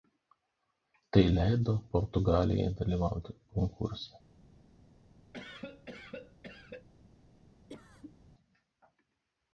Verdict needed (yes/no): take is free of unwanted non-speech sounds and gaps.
no